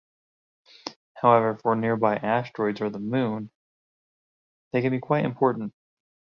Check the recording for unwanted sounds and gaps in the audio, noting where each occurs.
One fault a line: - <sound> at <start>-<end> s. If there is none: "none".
none